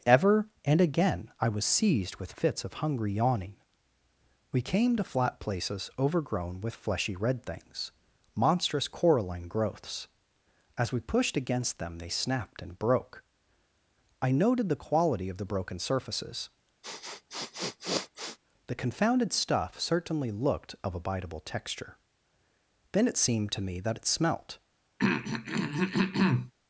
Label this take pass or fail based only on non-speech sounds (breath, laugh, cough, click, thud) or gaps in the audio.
fail